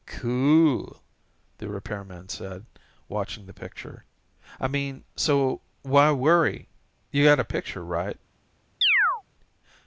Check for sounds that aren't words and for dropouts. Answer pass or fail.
fail